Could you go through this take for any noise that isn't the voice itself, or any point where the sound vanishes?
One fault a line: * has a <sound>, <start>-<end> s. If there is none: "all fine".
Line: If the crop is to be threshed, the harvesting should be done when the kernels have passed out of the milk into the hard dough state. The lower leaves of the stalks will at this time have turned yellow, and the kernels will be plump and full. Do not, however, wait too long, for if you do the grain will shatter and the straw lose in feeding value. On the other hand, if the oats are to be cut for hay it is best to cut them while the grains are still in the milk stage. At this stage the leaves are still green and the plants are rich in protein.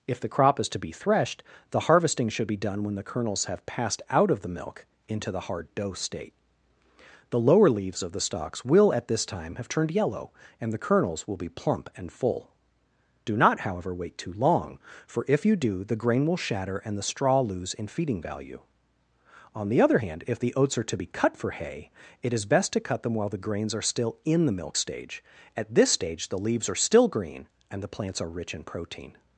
all fine